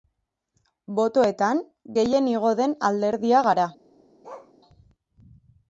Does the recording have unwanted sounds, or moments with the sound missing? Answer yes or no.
yes